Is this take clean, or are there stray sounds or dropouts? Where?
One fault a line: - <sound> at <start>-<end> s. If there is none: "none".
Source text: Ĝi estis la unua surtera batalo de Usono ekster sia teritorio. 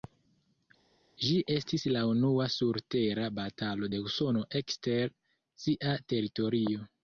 none